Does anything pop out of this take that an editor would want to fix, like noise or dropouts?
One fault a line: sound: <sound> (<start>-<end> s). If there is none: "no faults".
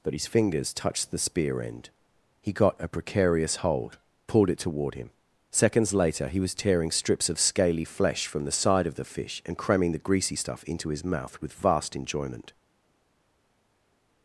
no faults